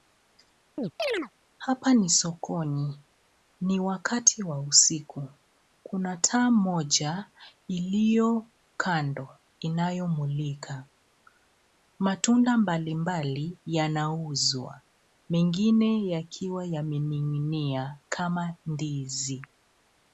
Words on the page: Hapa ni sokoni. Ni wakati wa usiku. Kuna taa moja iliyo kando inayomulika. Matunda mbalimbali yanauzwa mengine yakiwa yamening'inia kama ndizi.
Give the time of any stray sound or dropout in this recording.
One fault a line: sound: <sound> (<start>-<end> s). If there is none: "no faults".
sound: chirp (0.8-1.3 s)